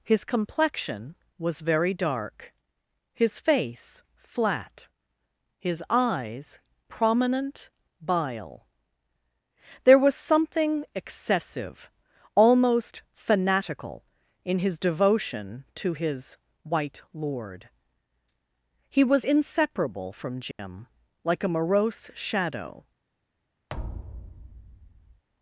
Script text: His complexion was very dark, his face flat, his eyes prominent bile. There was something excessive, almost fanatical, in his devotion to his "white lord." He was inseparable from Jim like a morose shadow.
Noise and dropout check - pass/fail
fail